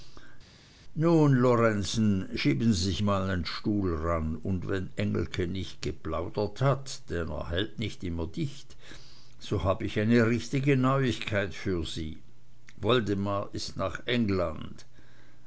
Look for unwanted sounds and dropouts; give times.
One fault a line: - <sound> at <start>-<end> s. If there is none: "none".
none